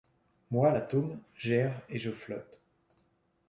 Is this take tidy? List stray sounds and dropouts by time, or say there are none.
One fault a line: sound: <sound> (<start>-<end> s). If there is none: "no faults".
no faults